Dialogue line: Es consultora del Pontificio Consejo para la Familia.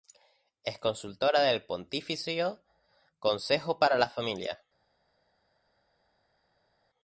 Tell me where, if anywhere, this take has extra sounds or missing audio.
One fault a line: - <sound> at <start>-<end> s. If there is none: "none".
none